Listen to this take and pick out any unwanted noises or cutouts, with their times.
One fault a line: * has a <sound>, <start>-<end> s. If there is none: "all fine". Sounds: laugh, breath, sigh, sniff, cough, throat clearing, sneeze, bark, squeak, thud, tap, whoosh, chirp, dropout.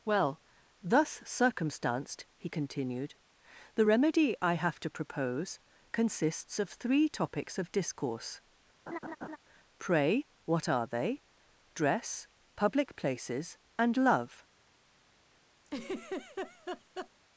* has a laugh, 8.9-9.4 s
* has a laugh, 15.7-17.1 s